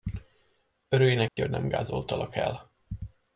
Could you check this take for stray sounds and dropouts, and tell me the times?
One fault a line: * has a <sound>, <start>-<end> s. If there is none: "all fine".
* has a dropout, 1.3-1.4 s